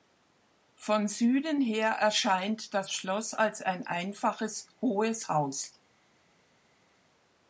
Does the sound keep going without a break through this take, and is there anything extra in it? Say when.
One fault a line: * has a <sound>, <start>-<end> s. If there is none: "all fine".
all fine